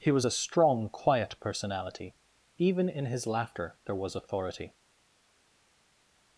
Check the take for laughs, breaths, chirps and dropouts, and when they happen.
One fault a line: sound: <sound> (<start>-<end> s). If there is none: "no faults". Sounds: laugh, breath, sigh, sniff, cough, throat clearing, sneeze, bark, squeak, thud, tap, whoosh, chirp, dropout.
no faults